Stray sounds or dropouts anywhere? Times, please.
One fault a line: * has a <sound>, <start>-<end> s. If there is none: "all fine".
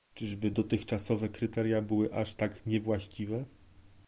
all fine